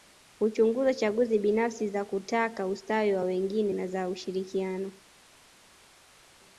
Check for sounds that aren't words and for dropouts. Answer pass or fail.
pass